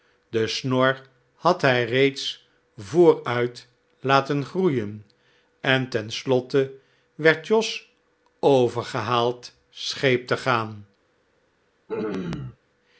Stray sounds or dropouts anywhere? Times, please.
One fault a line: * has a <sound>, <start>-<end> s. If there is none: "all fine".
* has a throat clearing, 11.9-12.6 s